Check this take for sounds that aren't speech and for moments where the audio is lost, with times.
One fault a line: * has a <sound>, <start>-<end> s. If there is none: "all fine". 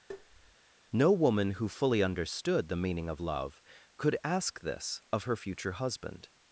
* has a tap, 0.1-0.6 s